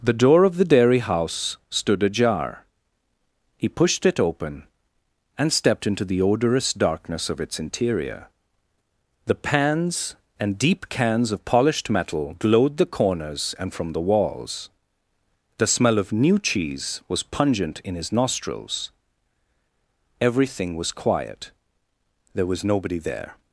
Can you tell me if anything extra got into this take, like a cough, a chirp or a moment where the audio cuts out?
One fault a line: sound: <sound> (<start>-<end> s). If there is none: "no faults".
no faults